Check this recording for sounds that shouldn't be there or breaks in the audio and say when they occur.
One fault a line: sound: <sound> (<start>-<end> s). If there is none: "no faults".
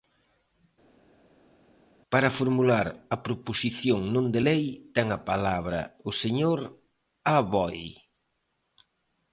no faults